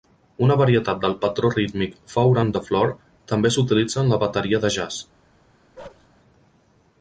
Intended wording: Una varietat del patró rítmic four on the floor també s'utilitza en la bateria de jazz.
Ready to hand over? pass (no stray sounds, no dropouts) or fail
fail